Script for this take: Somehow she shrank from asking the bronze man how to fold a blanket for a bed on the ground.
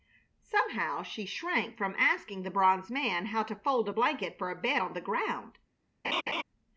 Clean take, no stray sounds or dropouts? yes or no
no